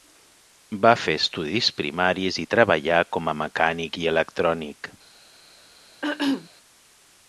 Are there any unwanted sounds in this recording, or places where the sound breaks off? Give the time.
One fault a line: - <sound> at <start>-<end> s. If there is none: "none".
- throat clearing at 6.0-6.5 s